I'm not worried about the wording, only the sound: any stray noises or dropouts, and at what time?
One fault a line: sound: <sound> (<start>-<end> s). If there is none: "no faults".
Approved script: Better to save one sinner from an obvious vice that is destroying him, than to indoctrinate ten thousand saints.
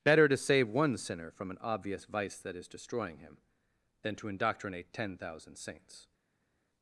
no faults